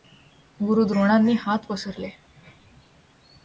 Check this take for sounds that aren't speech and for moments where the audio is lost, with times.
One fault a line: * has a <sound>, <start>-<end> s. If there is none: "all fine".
all fine